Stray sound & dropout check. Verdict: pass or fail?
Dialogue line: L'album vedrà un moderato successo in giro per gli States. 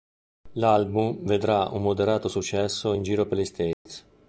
fail